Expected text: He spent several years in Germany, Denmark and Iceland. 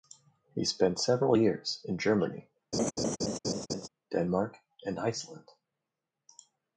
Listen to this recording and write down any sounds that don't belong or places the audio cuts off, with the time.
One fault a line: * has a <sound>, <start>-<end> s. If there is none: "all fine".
* has a laugh, 2.7-3.9 s